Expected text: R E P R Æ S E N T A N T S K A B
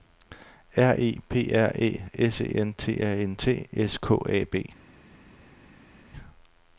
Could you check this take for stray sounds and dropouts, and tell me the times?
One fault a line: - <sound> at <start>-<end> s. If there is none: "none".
none